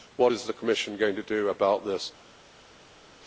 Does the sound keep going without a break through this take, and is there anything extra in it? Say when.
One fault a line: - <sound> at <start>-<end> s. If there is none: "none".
none